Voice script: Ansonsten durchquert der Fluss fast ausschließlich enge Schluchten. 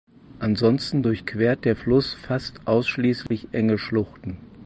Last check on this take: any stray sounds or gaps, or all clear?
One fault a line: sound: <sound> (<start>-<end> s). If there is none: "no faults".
sound: dropout (3.3-3.3 s)